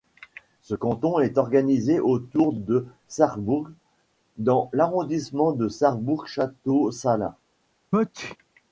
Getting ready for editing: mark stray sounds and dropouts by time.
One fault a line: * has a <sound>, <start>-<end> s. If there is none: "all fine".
* has a sneeze, 7.9-8.4 s